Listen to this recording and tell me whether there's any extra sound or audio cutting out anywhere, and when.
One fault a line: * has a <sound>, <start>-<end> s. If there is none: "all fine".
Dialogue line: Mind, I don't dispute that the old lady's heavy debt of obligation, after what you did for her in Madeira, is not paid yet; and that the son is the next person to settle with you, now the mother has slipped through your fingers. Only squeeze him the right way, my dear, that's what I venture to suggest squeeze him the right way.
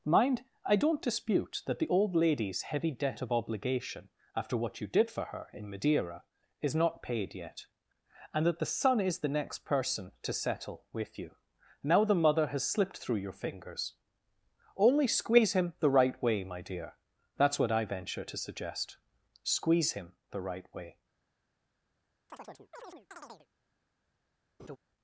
* has a chirp, 22.3-23.5 s
* has a laugh, 24.6-24.8 s